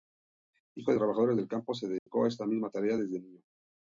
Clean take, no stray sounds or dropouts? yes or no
no